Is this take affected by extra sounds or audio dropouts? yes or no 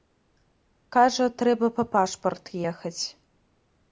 no